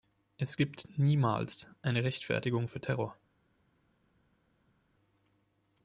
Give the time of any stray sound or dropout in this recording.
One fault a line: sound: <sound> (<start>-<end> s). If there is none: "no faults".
no faults